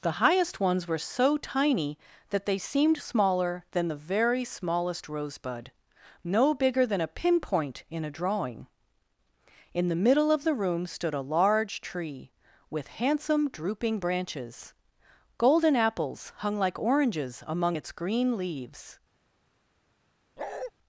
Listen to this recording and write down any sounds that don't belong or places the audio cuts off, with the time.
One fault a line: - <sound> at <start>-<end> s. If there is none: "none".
- bark at 20.4-20.7 s